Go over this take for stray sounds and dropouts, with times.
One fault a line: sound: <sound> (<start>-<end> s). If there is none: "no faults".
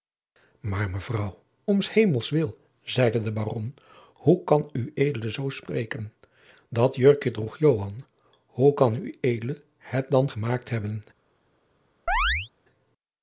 sound: chirp (12.1-12.5 s)